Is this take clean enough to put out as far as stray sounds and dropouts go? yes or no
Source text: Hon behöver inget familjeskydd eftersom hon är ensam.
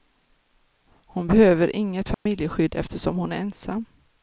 no